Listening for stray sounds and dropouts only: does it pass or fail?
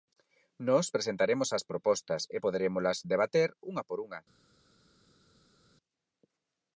pass